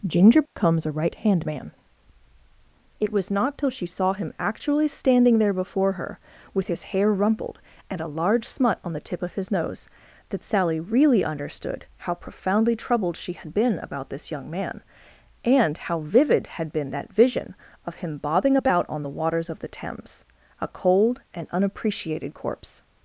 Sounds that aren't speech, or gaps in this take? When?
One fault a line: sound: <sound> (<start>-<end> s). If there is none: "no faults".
sound: dropout (0.5-0.6 s)